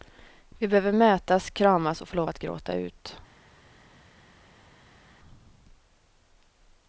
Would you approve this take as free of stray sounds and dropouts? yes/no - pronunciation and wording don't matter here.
yes